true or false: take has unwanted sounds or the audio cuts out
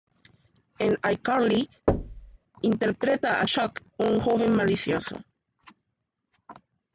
true